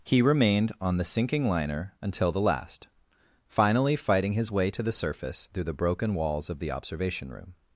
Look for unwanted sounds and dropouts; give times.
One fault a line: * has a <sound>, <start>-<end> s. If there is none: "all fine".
all fine